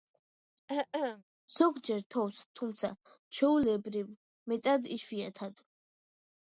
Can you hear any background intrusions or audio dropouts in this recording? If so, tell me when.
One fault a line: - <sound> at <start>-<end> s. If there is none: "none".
- throat clearing at 0.7-1.2 s